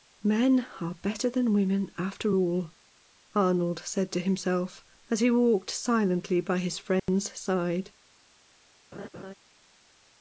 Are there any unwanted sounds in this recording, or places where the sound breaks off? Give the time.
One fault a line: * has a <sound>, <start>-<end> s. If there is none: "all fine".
* has a dropout, 7.0-7.1 s
* has a laugh, 8.9-9.3 s